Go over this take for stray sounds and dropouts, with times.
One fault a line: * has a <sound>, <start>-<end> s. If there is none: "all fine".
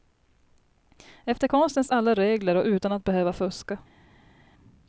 all fine